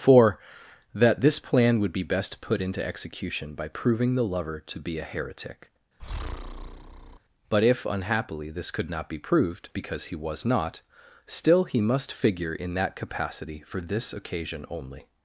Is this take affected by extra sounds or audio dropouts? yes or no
yes